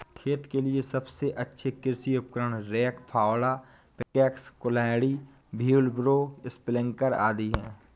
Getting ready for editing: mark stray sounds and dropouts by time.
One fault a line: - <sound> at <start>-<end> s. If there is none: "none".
- dropout at 4.0-4.1 s